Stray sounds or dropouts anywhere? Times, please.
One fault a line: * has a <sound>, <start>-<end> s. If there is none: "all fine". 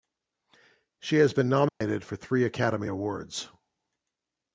* has a dropout, 1.7-1.8 s